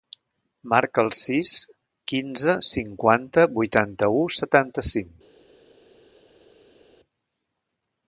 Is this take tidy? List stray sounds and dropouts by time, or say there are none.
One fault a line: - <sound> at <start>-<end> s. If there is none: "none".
none